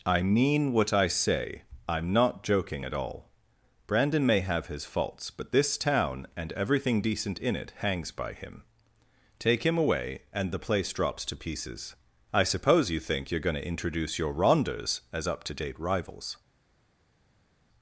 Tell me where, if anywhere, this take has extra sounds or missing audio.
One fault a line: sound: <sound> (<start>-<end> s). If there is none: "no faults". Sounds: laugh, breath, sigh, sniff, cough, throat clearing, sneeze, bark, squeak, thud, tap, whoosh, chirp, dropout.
no faults